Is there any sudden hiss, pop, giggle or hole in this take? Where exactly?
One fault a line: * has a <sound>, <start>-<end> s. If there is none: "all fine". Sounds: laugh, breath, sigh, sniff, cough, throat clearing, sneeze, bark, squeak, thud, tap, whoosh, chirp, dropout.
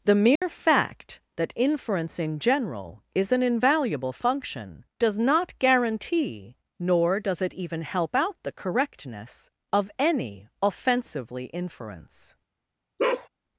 * has a dropout, 0.4-0.4 s
* has a bark, 13.0-13.3 s